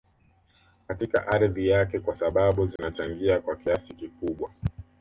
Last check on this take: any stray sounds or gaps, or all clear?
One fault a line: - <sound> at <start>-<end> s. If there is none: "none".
- dropout at 2.8-2.8 s